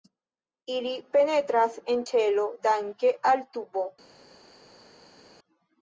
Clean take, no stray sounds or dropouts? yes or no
yes